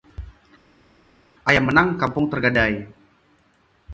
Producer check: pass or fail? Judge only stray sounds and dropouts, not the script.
pass